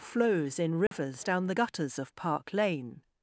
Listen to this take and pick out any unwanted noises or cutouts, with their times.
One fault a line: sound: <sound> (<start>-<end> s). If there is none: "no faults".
sound: dropout (0.9-0.9 s)